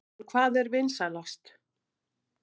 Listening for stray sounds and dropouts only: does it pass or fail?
pass